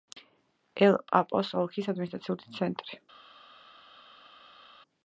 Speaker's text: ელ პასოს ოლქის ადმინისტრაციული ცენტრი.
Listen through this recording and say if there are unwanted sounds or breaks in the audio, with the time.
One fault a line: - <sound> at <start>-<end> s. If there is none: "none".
none